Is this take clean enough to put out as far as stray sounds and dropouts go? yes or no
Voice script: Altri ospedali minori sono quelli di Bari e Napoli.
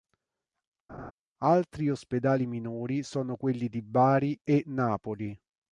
no